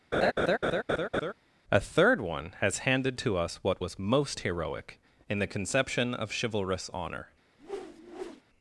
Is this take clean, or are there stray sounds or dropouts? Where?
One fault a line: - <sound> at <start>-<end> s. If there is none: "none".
- laugh at 0.1-1.3 s
- whoosh at 7.6-8.4 s